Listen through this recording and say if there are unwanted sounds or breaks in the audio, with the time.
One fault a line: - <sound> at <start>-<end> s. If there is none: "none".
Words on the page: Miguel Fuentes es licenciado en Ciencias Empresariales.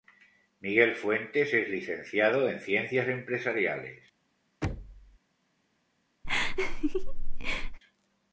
- thud at 4.6-5.2 s
- laugh at 6.2-7.8 s